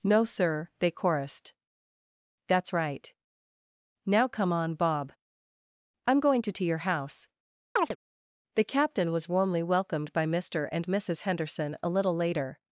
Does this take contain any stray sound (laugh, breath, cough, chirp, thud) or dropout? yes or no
yes